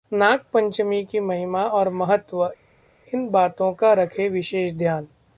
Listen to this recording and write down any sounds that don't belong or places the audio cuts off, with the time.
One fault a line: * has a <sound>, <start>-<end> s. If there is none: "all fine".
all fine